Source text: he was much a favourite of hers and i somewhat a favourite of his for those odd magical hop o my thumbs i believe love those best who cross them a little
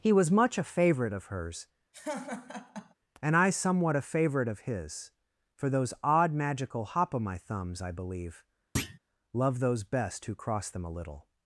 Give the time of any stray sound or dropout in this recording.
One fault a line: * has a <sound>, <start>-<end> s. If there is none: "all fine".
* has a laugh, 1.9-2.9 s
* has a thud, 8.8-9.0 s